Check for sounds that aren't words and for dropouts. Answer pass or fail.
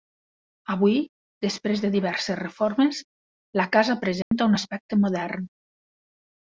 fail